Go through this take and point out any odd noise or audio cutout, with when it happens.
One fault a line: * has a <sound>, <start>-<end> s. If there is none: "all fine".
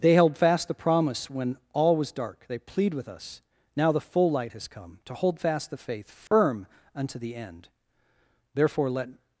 * has a dropout, 6.3-6.3 s